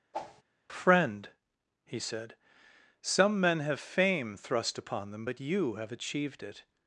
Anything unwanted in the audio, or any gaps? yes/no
yes